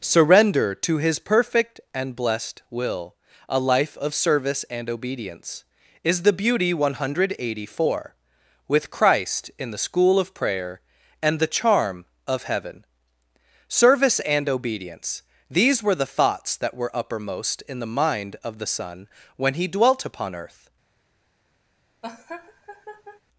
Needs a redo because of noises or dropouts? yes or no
yes